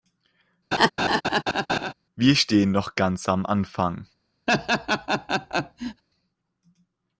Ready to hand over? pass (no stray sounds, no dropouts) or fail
fail